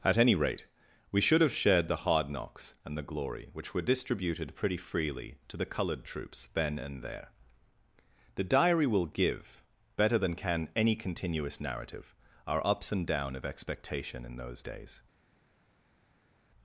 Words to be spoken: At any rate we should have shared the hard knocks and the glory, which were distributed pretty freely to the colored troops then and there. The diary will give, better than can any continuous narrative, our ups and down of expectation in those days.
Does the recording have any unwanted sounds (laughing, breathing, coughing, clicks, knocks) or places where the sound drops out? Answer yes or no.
no